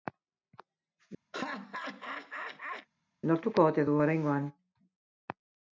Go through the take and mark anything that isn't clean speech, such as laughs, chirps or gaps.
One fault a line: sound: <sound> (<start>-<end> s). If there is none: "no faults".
sound: laugh (1.3-2.9 s)